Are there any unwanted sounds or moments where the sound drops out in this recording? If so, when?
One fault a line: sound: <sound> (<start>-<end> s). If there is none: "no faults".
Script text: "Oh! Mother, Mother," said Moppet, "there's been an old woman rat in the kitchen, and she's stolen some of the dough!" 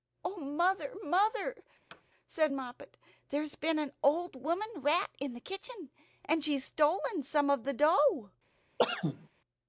sound: thud (1.9-2.0 s)
sound: cough (8.8-9.3 s)